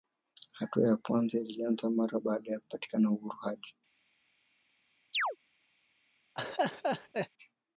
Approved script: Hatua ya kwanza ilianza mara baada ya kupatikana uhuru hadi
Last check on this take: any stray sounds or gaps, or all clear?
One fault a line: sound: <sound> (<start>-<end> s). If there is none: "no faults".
sound: chirp (5.1-5.4 s)
sound: laugh (6.4-7.3 s)